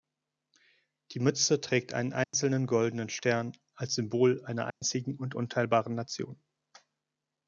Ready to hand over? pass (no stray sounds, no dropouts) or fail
fail